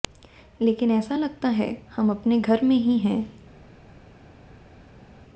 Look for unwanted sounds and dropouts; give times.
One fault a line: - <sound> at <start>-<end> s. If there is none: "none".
none